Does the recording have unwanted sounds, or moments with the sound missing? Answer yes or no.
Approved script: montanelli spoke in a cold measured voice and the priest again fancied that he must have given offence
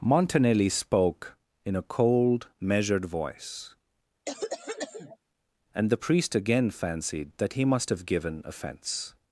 yes